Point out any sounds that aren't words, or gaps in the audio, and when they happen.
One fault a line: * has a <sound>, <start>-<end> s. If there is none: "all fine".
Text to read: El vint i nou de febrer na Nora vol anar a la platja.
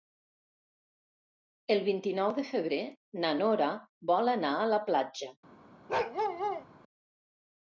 * has a bark, 5.9-6.7 s